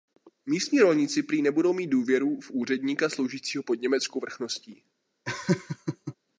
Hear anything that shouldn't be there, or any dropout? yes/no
yes